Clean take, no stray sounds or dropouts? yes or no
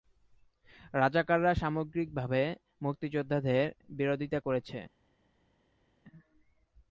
yes